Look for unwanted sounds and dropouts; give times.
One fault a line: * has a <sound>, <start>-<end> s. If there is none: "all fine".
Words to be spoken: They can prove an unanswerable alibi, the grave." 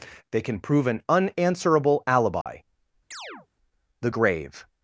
* has a dropout, 2.4-2.5 s
* has a chirp, 3.1-3.5 s